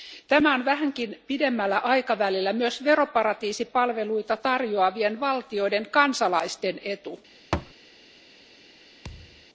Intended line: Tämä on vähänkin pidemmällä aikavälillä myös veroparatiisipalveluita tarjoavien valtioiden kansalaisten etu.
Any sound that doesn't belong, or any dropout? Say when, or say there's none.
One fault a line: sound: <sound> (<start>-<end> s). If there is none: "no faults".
sound: thud (7.5-7.7 s)
sound: thud (9.0-9.5 s)